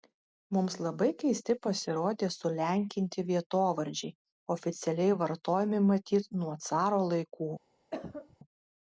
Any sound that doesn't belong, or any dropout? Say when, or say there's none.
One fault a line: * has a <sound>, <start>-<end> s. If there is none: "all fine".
* has a cough, 7.9-8.4 s